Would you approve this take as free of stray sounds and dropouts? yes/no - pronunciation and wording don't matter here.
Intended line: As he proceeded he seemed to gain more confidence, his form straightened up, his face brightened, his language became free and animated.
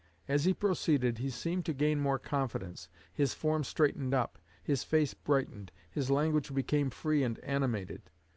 yes